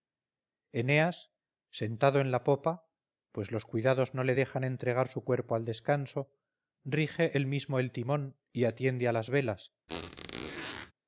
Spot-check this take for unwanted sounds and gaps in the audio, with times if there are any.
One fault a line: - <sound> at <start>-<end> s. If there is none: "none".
- squeak at 9.9-10.9 s